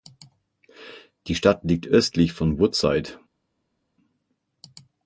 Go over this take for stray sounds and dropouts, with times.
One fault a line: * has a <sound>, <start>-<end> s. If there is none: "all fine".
all fine